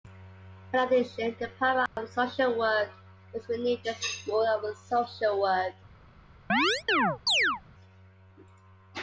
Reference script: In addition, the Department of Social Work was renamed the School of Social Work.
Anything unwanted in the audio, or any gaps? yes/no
yes